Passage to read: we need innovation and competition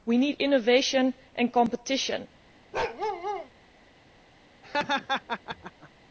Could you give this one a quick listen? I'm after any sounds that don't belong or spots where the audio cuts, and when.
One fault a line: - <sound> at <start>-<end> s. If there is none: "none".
- bark at 2.7-3.5 s
- laugh at 4.6-5.9 s